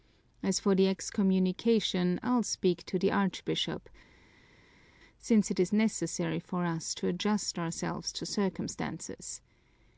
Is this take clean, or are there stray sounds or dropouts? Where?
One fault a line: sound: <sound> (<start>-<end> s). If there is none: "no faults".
no faults